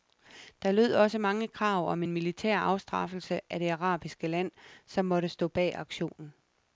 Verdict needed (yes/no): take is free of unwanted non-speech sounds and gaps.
yes